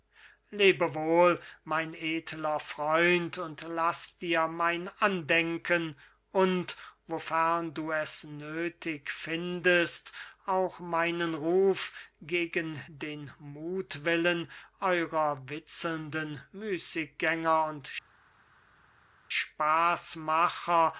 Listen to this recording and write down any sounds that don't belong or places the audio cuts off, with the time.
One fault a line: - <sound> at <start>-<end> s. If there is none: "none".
none